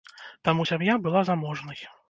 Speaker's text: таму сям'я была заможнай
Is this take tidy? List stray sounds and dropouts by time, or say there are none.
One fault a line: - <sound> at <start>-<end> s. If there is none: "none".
none